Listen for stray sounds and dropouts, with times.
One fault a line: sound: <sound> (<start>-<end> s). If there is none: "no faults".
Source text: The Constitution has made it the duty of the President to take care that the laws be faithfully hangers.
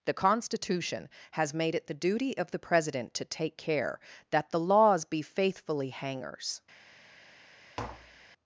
sound: tap (7.8-8.3 s)